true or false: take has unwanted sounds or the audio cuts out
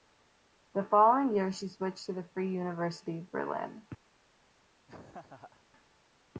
true